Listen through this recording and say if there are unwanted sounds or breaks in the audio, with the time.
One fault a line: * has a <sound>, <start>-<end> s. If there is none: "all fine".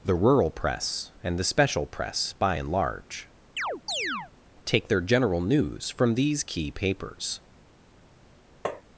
* has a chirp, 3.6-4.3 s
* has a tap, 8.6-8.8 s